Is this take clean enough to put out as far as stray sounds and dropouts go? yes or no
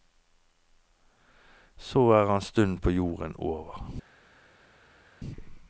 yes